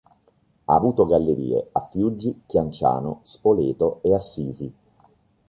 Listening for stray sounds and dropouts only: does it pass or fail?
pass